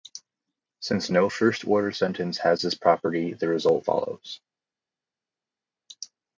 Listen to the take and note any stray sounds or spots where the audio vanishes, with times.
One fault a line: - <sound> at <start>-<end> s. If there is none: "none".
none